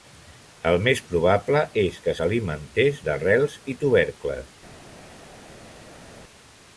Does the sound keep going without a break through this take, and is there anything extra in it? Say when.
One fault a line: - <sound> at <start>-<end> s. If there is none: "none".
none